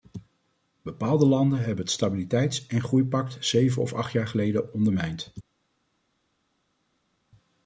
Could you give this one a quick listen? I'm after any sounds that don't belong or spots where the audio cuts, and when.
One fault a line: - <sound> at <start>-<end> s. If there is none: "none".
none